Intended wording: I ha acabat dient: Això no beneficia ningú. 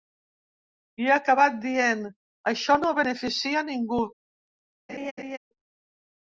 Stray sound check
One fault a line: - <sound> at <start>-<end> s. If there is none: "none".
- laugh at 4.9-5.4 s